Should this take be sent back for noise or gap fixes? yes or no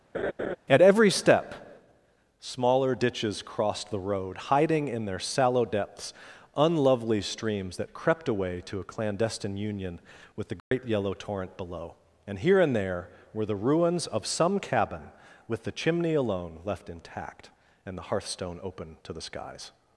yes